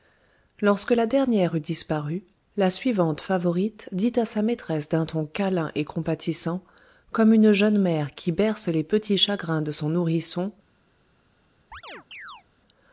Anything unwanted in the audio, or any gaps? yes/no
yes